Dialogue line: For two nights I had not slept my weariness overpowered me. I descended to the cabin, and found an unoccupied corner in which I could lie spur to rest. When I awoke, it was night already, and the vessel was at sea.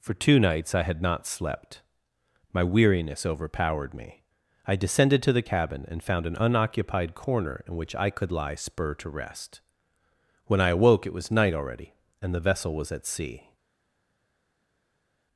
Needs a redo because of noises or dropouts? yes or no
no